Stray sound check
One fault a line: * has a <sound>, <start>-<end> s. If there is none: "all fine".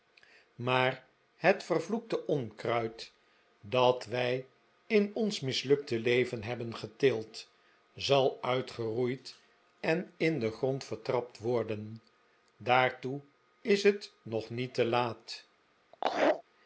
* has a laugh, 15.9-16.4 s